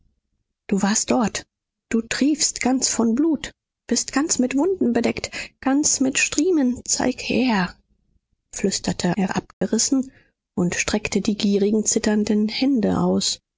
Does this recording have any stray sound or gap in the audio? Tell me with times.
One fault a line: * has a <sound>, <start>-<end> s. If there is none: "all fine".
* has a dropout, 9.5-9.6 s